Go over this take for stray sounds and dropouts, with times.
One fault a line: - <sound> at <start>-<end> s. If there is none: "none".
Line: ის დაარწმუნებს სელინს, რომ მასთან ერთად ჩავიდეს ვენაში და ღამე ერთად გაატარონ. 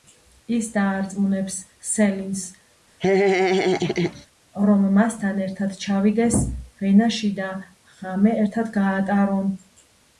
- laugh at 3.0-4.3 s